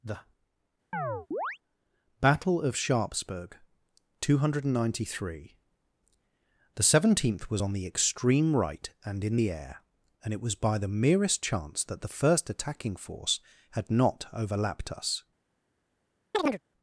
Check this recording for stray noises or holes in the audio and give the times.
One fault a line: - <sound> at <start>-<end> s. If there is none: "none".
- chirp at 0.9-1.6 s
- chirp at 16.3-16.6 s